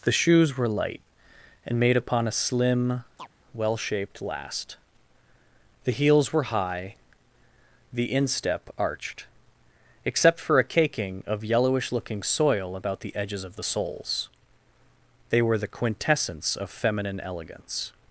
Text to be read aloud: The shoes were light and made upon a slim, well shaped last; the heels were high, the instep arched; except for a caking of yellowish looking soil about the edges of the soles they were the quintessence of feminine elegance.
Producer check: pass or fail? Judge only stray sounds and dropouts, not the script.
fail